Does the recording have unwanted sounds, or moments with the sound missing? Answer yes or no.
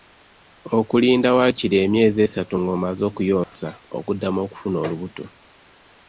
yes